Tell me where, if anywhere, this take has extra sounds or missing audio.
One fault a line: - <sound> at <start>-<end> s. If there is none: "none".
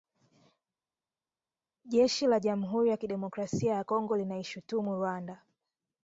none